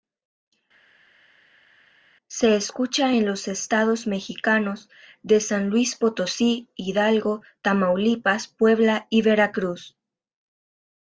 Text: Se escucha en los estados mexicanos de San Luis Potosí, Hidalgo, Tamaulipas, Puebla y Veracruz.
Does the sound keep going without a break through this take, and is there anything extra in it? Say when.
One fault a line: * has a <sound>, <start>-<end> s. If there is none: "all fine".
all fine